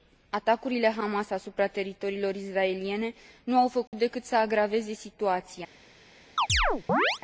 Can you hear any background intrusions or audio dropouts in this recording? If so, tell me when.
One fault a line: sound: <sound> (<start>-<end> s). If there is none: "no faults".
sound: dropout (3.9-3.9 s)
sound: chirp (6.4-7.2 s)